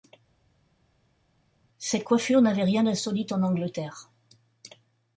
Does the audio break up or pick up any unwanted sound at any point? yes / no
no